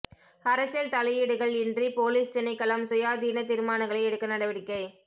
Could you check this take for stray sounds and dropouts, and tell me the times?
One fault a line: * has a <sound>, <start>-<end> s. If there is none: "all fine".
all fine